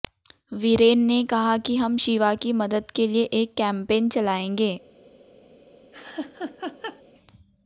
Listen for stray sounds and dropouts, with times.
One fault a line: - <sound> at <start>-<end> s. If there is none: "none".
- laugh at 5.9-7.0 s